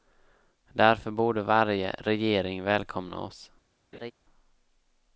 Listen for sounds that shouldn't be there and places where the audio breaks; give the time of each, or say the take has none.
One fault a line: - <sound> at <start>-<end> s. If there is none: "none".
- laugh at 3.9-4.1 s